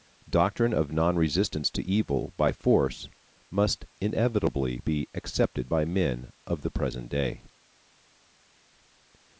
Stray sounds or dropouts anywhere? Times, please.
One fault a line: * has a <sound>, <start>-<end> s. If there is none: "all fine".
all fine